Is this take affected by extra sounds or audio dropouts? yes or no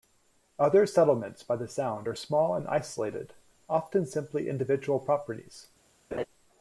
yes